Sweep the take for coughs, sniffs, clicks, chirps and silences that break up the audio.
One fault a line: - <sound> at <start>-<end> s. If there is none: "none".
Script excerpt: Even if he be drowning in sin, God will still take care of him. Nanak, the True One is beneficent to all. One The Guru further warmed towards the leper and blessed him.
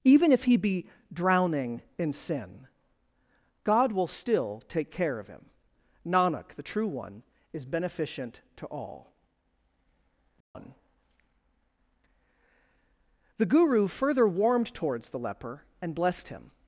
- dropout at 10.4-10.6 s